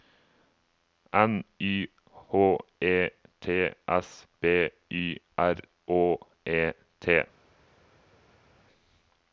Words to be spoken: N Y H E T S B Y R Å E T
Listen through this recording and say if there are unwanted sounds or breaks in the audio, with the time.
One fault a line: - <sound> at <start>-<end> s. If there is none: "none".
none